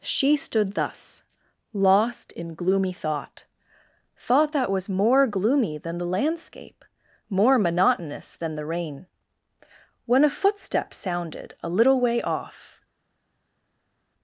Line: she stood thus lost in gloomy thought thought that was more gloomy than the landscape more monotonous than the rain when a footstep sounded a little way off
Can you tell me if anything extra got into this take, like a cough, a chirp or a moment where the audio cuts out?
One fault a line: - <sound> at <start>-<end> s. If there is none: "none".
none